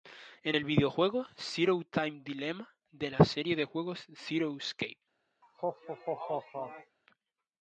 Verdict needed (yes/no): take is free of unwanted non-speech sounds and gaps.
no